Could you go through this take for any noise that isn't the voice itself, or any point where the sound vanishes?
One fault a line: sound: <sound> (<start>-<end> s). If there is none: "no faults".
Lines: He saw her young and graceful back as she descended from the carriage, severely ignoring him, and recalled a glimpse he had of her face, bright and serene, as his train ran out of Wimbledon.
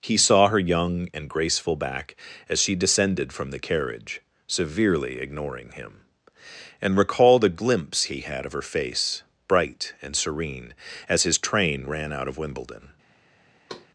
sound: thud (13.7-13.9 s)